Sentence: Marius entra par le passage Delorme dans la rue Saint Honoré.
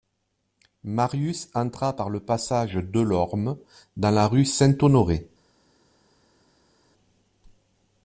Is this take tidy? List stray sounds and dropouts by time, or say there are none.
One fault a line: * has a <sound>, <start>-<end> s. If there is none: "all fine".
all fine